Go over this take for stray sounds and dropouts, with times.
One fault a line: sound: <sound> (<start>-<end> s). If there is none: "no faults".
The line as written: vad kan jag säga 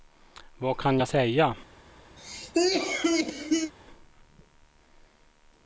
sound: cough (2.2-3.7 s)